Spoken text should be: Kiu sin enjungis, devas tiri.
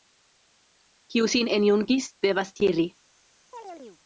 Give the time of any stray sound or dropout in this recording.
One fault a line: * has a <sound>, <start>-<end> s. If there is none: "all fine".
* has a chirp, 3.5-4.0 s